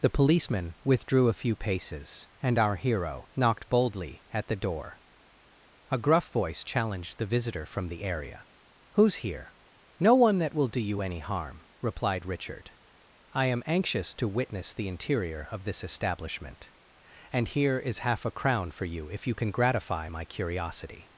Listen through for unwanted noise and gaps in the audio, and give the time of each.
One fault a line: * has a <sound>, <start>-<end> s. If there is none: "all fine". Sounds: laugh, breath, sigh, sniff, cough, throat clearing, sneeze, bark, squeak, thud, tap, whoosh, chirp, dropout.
all fine